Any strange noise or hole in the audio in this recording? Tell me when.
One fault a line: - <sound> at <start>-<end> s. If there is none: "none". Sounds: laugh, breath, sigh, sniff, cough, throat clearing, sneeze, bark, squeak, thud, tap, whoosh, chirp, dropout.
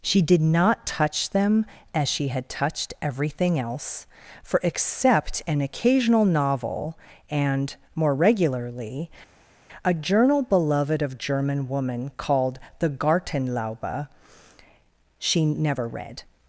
none